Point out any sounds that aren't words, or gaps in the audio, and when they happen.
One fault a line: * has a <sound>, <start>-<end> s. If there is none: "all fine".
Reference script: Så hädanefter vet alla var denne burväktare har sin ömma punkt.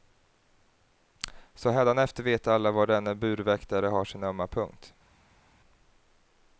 all fine